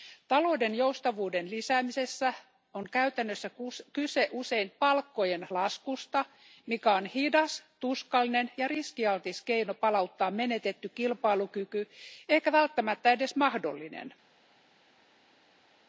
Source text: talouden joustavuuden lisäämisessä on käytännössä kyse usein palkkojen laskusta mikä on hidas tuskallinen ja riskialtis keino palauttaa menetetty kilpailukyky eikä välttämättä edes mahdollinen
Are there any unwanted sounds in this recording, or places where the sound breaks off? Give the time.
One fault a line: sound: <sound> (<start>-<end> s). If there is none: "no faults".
no faults